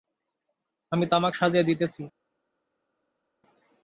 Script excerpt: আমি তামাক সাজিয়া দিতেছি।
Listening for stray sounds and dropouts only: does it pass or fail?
pass